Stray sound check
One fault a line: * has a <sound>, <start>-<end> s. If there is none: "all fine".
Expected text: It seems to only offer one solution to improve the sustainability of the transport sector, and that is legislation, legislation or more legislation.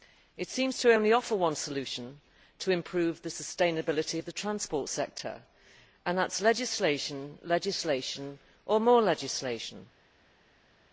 all fine